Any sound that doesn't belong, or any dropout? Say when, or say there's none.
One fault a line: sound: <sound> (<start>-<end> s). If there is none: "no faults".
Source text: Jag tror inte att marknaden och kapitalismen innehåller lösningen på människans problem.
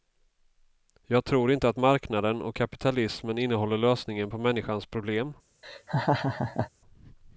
sound: laugh (5.6-6.7 s)